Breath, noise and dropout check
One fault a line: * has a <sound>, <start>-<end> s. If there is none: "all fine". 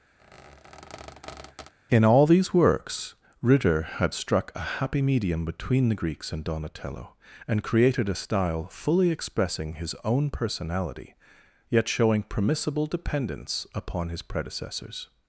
* has a squeak, 0.2-1.7 s